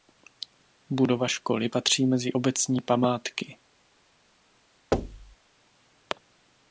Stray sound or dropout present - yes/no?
yes